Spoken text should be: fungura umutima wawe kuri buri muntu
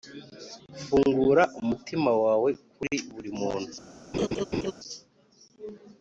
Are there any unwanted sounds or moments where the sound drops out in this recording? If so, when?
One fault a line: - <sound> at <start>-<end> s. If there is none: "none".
- laugh at 4.1-4.7 s